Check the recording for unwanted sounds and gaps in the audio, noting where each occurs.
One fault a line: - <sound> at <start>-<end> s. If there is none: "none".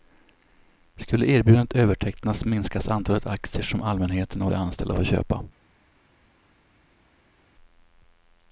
none